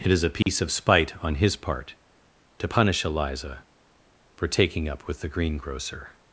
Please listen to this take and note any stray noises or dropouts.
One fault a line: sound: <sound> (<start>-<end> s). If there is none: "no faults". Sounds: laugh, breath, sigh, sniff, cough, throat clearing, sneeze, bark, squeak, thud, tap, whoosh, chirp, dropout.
sound: dropout (0.4-0.5 s)